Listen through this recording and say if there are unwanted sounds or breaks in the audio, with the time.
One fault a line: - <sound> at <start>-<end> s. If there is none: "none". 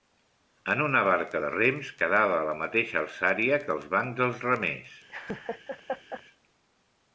- laugh at 5.1-6.2 s